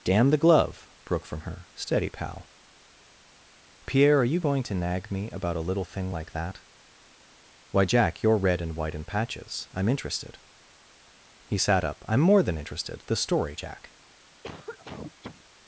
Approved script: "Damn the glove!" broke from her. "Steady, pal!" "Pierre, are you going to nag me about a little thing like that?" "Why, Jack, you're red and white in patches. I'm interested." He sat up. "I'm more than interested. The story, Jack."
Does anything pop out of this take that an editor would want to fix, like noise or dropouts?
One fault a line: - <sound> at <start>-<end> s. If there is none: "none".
- cough at 14.4-15.4 s